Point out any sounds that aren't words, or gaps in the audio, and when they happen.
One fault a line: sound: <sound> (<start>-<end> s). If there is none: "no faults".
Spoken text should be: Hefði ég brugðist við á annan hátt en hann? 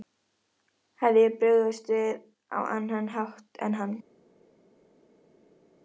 no faults